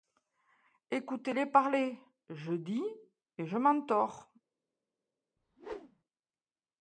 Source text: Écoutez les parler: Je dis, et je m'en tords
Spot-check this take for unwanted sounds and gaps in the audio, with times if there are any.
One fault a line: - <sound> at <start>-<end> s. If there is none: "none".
- whoosh at 5.4-6.0 s